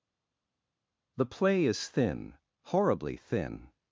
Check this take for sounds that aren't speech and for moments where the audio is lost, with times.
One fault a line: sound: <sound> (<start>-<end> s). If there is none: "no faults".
no faults